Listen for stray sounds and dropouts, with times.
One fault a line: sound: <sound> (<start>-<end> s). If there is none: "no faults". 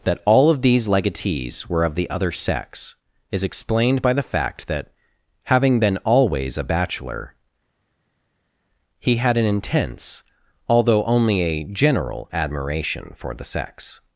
no faults